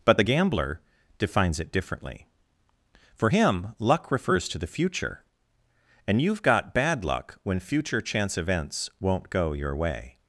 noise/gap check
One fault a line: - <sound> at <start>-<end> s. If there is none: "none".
none